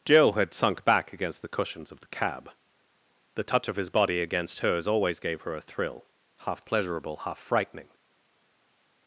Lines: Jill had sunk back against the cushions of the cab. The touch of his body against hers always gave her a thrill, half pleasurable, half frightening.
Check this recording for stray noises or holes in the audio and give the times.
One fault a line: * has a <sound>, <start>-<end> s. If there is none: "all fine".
all fine